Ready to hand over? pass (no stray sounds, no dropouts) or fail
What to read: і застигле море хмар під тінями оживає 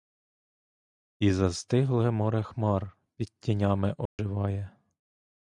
fail